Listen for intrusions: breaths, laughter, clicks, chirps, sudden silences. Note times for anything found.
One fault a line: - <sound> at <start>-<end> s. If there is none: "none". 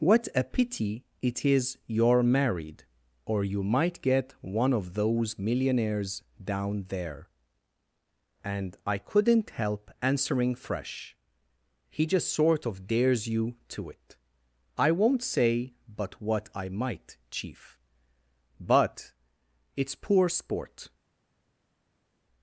none